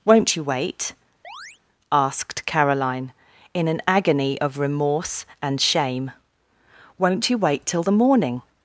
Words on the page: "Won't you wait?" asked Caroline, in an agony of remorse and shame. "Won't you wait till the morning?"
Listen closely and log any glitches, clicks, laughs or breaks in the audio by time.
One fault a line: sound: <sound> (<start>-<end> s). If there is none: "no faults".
sound: chirp (1.2-1.6 s)